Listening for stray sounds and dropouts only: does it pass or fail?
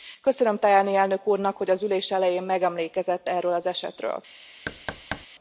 fail